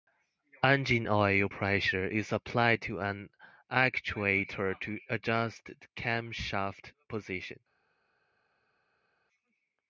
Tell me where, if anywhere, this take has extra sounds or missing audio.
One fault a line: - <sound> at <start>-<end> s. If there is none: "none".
none